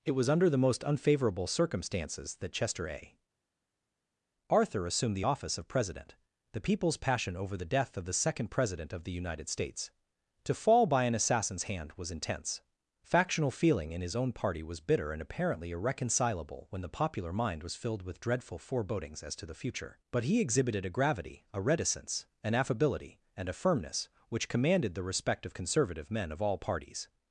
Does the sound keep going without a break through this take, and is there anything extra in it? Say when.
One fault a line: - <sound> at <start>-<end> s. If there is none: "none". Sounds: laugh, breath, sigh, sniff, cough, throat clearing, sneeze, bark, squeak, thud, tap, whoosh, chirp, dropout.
none